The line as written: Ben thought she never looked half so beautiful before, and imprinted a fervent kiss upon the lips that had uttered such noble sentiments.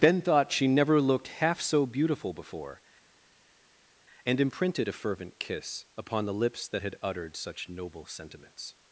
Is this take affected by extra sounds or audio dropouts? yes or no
no